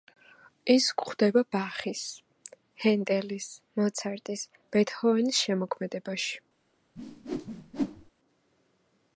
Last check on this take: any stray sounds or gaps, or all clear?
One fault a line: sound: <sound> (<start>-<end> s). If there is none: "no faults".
sound: whoosh (7.0-8.1 s)